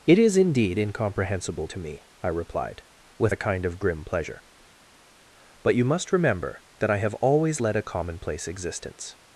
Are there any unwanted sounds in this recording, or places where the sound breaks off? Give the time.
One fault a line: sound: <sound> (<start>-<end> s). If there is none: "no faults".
no faults